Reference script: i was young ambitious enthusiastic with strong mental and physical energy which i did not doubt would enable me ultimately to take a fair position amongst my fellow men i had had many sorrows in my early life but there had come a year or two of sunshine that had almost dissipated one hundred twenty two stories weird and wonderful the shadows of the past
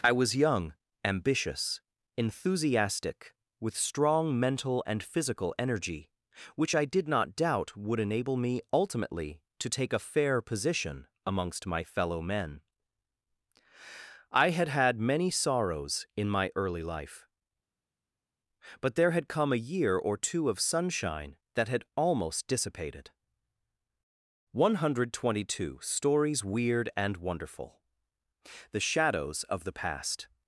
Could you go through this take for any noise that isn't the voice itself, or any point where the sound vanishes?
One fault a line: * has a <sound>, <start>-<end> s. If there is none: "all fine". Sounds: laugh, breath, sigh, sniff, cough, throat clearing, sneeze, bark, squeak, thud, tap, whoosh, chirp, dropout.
all fine